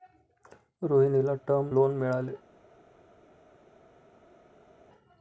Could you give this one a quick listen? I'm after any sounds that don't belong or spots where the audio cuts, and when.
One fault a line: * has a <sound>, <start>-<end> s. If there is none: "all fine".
all fine